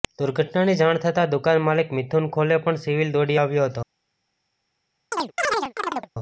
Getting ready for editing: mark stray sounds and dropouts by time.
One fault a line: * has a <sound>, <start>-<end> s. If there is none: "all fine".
* has a chirp, 5.1-6.1 s